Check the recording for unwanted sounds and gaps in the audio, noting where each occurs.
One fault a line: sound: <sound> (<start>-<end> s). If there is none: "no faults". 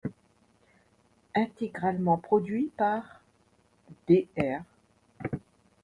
no faults